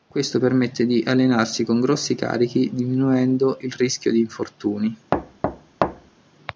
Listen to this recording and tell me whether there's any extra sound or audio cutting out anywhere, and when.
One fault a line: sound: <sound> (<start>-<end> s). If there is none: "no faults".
sound: thud (5.1-6.2 s)